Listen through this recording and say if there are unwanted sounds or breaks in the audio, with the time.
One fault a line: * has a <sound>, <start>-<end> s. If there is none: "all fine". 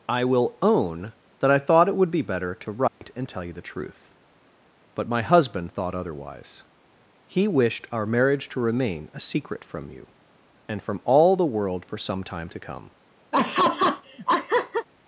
* has a dropout, 2.9-3.0 s
* has a laugh, 13.3-14.9 s